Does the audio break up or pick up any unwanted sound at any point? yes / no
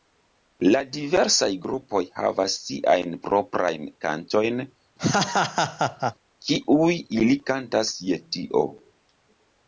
yes